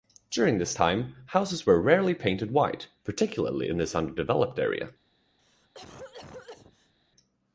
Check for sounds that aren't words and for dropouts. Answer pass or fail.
fail